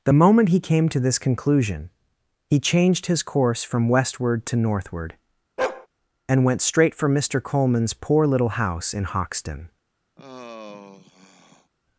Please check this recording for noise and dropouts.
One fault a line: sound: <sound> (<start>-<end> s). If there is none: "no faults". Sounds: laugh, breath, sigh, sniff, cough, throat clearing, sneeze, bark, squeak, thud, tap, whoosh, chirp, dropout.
sound: bark (5.6-5.9 s)
sound: sigh (10.2-11.7 s)